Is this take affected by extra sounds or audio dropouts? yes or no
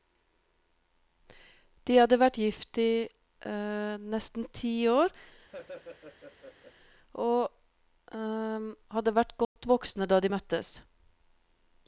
yes